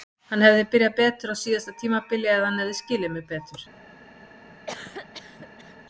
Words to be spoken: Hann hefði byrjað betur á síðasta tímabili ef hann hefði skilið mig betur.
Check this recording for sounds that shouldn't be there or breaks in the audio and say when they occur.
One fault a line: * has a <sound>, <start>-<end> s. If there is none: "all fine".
* has a cough, 4.7-5.8 s